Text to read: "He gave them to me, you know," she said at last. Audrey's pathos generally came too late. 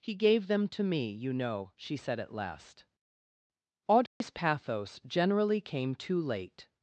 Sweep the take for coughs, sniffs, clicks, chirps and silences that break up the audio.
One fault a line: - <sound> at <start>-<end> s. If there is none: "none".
- dropout at 4.1-4.2 s